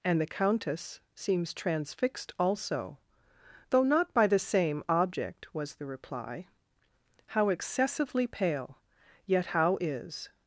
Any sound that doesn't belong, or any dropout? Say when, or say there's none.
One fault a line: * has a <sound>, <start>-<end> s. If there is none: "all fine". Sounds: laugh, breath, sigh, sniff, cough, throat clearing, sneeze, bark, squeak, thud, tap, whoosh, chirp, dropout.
all fine